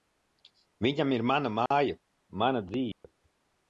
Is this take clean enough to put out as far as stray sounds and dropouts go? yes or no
no